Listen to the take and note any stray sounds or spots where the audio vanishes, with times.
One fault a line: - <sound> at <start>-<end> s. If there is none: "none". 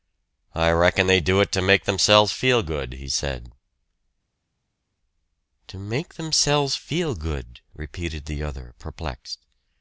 none